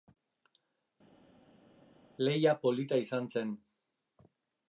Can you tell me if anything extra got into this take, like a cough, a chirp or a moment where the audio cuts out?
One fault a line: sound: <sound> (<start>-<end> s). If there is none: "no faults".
no faults